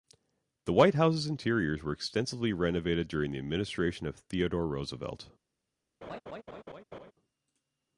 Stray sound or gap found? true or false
true